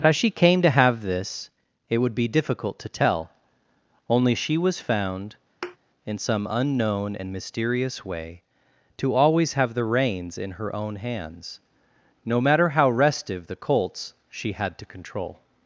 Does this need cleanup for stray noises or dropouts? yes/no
yes